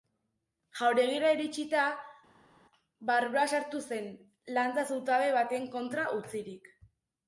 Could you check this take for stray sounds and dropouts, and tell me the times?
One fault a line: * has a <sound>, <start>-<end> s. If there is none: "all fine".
all fine